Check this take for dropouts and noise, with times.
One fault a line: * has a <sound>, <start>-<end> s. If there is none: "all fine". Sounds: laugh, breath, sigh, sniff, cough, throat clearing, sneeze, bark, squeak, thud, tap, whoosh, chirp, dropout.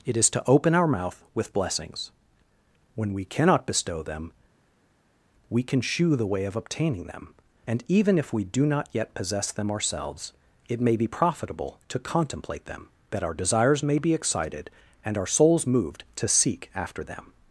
all fine